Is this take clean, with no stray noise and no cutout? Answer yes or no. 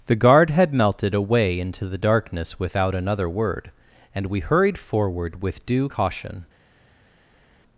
yes